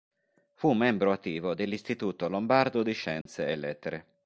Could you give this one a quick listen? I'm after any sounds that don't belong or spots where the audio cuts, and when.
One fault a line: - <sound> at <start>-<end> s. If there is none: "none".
- dropout at 3.2-3.3 s